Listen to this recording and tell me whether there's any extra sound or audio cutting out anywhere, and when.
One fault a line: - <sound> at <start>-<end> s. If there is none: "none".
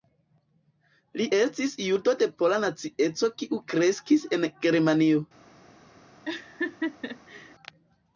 - laugh at 6.3-7.6 s